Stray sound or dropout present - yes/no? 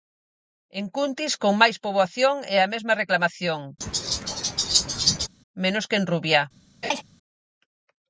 yes